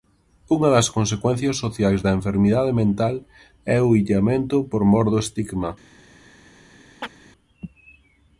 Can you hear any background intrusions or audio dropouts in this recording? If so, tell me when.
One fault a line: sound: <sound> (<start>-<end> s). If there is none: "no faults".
sound: chirp (7.0-7.2 s)